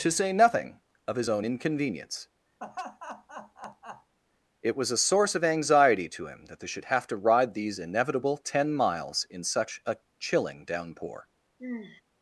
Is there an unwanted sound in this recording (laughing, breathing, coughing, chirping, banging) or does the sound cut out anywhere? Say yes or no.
yes